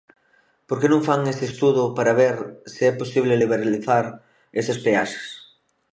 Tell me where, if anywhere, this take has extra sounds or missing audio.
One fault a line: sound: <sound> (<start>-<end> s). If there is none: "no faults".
no faults